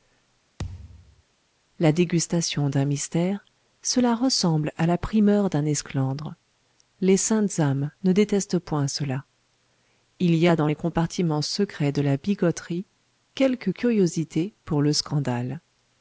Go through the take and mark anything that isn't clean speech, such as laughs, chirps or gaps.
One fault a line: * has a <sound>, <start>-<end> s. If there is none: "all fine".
* has a thud, 0.6-1.2 s